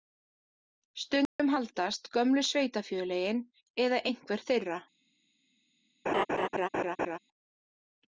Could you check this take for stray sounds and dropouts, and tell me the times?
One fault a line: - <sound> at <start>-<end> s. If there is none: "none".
- dropout at 1.3-1.4 s
- laugh at 6.1-7.2 s